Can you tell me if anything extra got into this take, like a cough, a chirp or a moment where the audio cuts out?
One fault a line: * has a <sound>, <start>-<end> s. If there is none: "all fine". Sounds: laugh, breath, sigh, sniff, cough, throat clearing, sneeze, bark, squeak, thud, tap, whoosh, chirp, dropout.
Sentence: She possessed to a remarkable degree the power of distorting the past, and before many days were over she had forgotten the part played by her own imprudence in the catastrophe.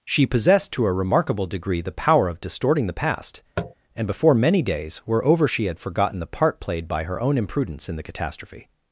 * has a tap, 3.6-3.7 s